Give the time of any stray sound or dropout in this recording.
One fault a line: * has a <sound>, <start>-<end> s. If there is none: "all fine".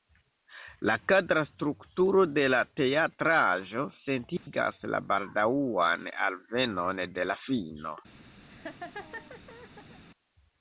* has a dropout, 4.4-4.5 s
* has a laugh, 8.4-10.0 s